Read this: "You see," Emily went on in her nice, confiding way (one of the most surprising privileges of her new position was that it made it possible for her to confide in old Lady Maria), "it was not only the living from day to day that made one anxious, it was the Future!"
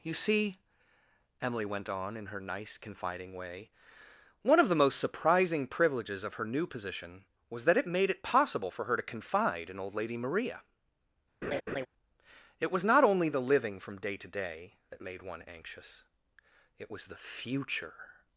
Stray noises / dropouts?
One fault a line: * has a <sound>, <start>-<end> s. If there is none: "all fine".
* has a laugh, 11.4-11.9 s